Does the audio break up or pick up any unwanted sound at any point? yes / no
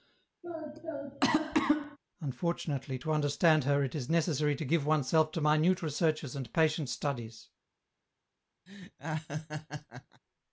yes